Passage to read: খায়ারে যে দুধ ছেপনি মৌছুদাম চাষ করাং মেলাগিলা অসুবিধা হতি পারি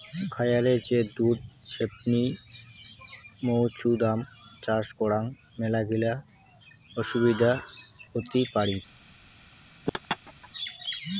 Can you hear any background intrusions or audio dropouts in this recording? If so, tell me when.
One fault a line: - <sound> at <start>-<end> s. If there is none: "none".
- laugh at 9.9-10.5 s